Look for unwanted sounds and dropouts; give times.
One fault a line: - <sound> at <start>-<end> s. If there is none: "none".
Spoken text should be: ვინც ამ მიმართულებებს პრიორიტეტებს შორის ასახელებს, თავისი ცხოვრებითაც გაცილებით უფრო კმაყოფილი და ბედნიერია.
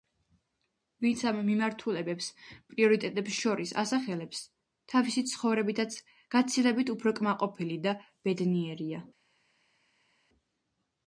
none